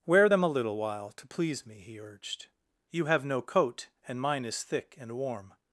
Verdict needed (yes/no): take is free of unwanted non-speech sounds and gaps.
yes